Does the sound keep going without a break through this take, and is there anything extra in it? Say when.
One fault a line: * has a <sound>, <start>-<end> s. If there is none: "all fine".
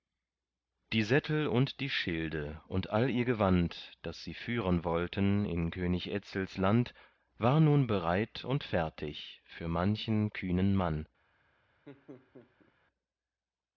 * has a laugh, 11.9-12.7 s